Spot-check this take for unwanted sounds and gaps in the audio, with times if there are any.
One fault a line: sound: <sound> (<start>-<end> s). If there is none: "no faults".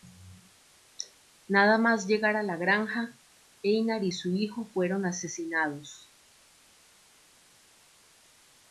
no faults